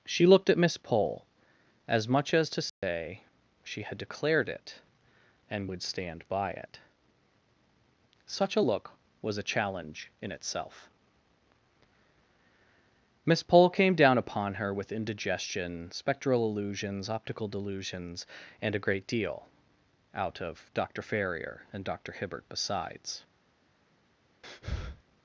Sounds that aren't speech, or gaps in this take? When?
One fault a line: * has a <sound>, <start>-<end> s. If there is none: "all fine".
* has a dropout, 2.7-2.8 s
* has a breath, 24.4-25.0 s